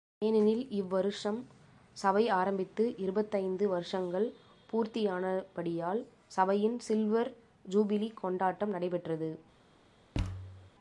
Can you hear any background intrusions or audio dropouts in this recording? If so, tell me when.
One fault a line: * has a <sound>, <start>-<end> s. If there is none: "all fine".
* has a thud, 10.1-10.7 s